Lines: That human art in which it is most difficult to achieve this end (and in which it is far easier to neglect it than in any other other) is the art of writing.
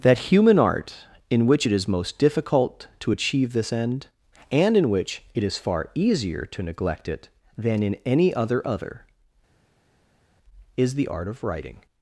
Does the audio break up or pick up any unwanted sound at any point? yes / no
no